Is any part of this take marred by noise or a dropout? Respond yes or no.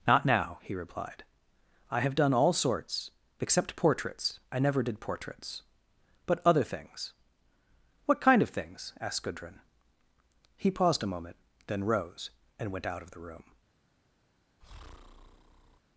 yes